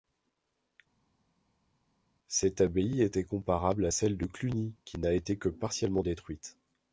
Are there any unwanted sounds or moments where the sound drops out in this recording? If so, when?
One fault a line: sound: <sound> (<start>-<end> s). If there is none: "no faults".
no faults